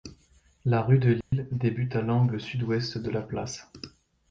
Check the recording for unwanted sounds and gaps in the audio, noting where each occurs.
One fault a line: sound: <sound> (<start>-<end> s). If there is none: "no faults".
sound: dropout (1.2-1.3 s)